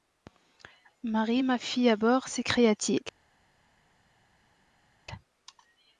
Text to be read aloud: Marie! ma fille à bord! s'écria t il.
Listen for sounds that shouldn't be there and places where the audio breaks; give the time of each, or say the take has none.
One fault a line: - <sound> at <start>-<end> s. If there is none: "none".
none